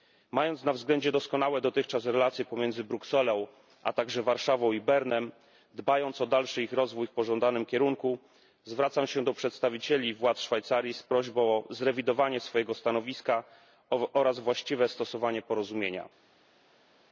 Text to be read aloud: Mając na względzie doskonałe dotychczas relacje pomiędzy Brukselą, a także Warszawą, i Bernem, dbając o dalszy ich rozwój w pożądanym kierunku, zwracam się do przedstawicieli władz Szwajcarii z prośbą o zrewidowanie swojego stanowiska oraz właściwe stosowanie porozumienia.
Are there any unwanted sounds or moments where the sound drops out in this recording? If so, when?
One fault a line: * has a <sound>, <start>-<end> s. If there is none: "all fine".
all fine